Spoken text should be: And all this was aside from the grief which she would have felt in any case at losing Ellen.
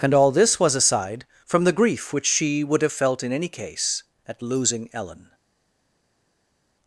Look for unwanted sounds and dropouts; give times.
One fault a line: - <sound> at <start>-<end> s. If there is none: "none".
none